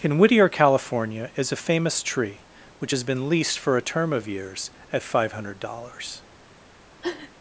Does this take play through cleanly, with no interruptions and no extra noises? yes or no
no